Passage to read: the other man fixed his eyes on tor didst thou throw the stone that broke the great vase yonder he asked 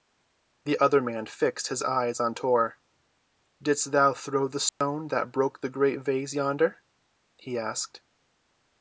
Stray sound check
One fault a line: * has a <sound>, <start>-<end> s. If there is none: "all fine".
* has a dropout, 4.7-4.8 s